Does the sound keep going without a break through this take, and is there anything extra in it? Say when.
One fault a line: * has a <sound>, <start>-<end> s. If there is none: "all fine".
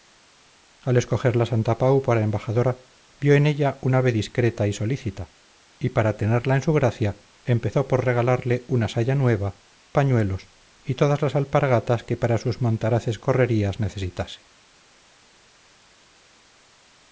all fine